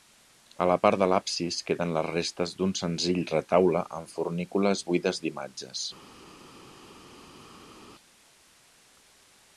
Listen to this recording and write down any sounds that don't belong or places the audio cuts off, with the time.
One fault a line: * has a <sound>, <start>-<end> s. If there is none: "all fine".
all fine